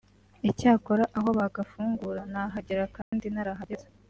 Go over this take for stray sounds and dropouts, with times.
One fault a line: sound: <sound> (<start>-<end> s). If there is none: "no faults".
sound: dropout (3.0-3.1 s)